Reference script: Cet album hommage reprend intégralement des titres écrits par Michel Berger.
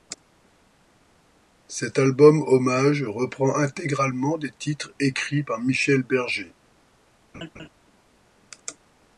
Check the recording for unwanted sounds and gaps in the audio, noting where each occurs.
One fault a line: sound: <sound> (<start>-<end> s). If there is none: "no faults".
sound: laugh (7.3-7.7 s)